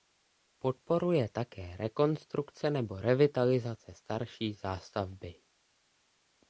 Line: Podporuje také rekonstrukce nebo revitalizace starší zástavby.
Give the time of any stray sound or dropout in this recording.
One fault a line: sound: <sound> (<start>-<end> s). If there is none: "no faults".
no faults